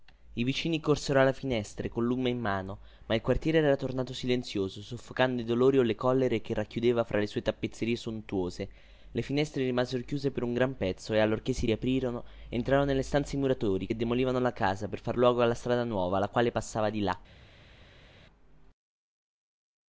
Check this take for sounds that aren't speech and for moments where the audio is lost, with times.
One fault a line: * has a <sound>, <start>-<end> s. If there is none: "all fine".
all fine